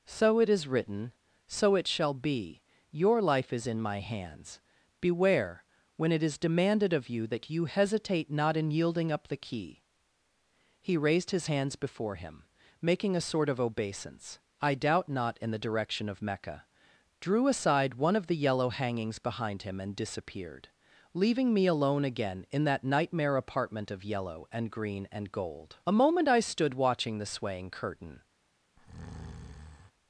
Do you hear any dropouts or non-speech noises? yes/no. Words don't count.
yes